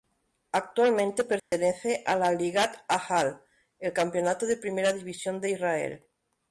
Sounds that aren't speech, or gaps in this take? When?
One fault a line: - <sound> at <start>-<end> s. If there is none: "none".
- dropout at 1.4-1.5 s